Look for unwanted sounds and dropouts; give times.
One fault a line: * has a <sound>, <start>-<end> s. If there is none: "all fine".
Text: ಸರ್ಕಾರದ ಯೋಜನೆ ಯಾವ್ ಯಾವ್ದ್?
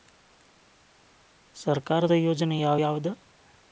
all fine